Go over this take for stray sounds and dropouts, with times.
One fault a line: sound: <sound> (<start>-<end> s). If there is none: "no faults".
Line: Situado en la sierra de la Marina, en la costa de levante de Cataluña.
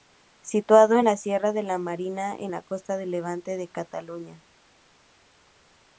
no faults